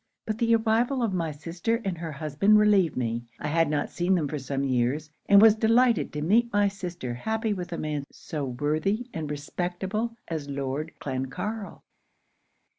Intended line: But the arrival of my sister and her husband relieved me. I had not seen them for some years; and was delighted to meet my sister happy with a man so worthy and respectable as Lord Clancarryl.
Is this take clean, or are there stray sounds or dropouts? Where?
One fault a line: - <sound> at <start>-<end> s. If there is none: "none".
none